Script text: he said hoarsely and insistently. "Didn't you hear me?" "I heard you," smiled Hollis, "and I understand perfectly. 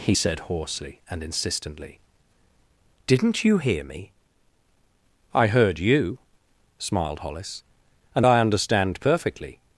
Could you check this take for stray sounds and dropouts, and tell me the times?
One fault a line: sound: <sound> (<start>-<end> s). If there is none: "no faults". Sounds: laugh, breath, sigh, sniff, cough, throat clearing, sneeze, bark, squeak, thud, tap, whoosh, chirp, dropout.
no faults